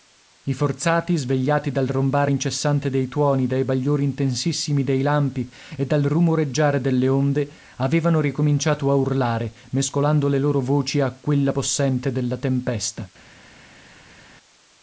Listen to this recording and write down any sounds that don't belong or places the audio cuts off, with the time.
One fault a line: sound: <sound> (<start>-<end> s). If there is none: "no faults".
no faults